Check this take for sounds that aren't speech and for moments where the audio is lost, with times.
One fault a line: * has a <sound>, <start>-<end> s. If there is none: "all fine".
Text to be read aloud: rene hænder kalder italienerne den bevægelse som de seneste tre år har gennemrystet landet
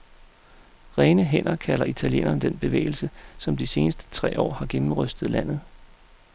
all fine